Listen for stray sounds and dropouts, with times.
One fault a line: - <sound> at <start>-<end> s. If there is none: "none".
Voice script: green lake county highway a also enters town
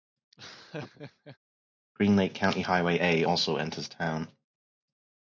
- laugh at 0.3-1.4 s